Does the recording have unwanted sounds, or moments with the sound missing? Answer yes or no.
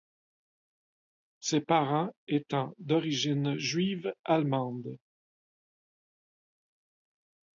no